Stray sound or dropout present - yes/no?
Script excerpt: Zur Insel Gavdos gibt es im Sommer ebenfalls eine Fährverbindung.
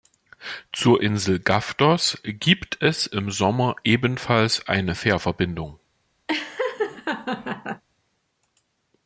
yes